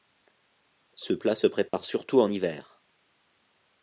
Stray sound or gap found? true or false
true